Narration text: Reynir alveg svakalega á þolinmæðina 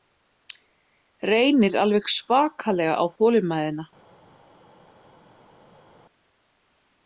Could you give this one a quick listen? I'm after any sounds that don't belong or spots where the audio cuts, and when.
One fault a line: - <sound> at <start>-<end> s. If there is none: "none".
none